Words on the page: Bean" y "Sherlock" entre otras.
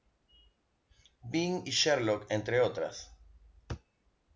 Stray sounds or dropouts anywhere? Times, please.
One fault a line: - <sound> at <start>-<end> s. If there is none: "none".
none